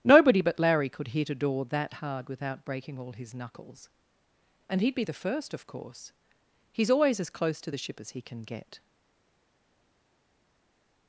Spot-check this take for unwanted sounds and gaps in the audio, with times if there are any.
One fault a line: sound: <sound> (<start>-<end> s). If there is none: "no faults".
no faults